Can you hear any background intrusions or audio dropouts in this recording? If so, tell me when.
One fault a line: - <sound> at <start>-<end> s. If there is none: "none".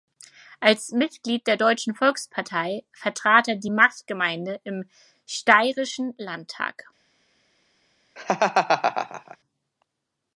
- laugh at 8.2-9.4 s